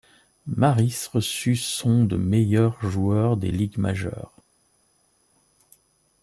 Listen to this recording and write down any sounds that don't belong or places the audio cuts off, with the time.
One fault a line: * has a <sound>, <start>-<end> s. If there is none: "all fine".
all fine